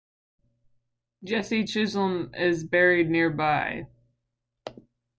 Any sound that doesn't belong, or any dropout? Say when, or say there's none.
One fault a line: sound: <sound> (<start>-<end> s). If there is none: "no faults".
no faults